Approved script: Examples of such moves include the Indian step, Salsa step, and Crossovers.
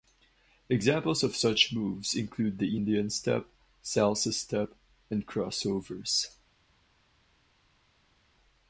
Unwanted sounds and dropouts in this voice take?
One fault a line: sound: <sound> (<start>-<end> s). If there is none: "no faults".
no faults